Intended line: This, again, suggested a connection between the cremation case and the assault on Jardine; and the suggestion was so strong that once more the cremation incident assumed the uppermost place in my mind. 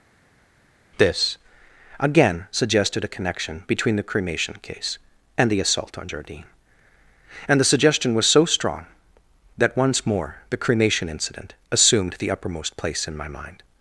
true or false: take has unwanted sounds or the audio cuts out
false